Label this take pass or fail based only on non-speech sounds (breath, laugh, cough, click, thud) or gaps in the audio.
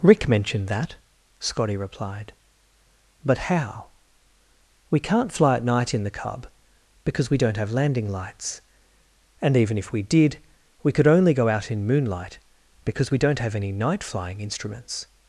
pass